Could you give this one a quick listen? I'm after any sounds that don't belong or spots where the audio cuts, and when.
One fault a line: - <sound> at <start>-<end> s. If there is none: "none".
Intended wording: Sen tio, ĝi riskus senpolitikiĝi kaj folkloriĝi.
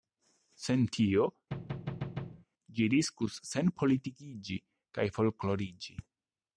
- thud at 1.5-2.5 s